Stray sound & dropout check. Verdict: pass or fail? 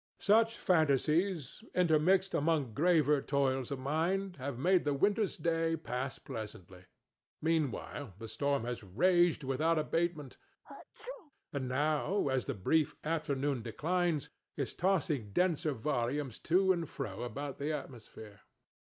fail